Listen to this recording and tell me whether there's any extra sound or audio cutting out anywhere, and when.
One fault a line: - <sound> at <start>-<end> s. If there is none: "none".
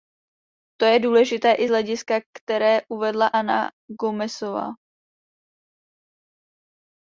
none